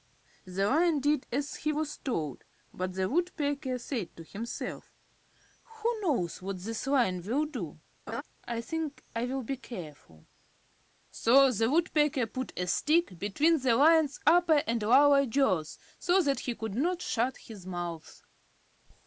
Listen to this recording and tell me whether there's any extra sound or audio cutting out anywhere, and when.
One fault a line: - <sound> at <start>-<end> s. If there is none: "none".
- laugh at 8.1-8.2 s